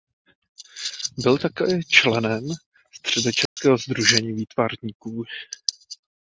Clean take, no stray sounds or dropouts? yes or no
no